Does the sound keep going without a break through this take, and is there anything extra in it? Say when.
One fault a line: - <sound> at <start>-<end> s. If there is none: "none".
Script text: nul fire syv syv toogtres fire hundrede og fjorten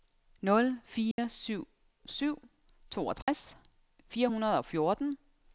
- dropout at 1.1-1.2 s
- dropout at 3.2-3.3 s